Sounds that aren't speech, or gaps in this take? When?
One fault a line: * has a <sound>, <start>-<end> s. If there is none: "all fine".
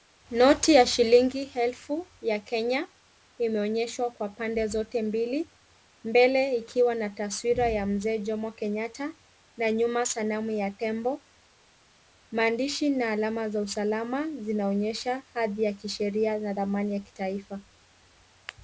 all fine